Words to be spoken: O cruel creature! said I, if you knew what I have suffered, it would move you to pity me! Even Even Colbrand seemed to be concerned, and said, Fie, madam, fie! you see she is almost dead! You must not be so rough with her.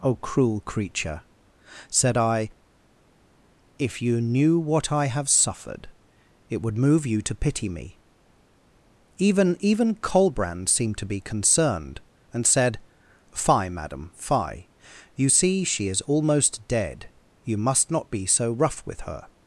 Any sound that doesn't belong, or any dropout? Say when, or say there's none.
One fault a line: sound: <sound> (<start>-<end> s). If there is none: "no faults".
no faults